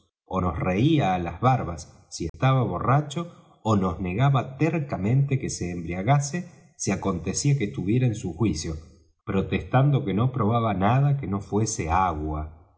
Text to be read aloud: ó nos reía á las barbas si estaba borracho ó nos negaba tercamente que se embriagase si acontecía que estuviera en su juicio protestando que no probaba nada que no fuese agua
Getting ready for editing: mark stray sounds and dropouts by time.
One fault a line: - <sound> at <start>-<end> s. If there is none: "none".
- dropout at 2.3-2.3 s